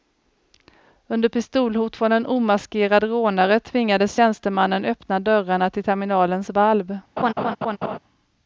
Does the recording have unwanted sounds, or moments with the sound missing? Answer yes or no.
yes